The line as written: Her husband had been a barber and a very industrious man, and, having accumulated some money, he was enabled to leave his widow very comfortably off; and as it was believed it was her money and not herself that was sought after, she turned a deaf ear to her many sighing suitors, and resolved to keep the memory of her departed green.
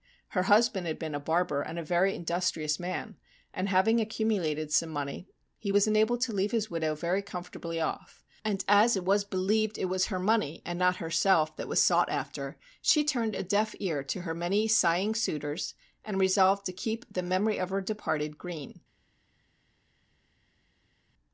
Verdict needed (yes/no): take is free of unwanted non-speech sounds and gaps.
yes